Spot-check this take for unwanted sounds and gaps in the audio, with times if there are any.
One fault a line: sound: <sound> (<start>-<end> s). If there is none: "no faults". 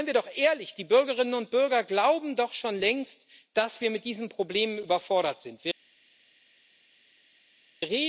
no faults